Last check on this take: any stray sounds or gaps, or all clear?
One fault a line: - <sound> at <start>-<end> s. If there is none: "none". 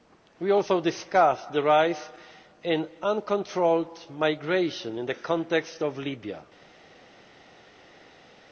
none